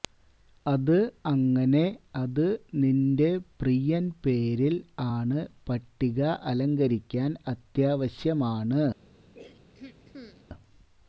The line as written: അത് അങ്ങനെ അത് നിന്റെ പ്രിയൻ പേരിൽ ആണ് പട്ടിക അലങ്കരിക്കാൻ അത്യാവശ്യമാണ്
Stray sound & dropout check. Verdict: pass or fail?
fail